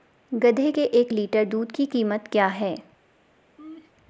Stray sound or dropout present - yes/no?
yes